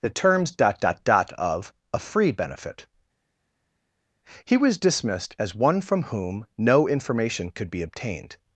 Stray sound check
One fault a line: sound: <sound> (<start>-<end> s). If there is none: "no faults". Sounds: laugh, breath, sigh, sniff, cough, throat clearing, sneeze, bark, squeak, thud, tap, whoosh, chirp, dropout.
no faults